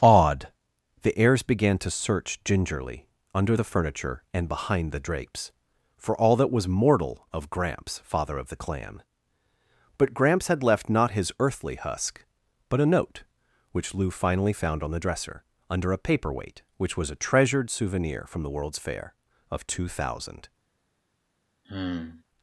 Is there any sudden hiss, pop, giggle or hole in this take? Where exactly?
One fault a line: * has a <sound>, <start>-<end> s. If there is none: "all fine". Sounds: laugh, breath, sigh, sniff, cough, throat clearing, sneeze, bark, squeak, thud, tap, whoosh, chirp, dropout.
* has a sigh, 21.6-22.2 s